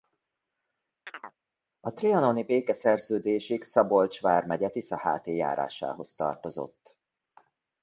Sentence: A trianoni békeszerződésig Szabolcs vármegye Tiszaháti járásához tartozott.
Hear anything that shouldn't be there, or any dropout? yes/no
yes